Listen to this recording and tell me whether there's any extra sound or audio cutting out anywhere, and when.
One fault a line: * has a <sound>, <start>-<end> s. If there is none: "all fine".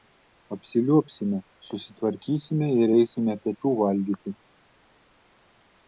all fine